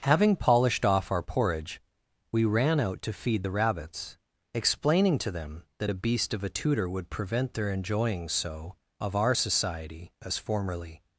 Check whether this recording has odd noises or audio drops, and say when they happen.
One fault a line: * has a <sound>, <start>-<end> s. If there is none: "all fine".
all fine